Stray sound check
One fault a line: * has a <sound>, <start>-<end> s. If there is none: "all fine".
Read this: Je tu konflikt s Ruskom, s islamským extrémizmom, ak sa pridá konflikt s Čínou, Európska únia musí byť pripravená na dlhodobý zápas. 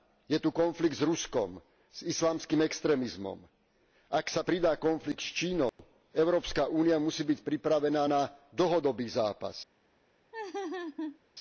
* has a dropout, 5.7-5.8 s
* has a laugh, 10.3-11.2 s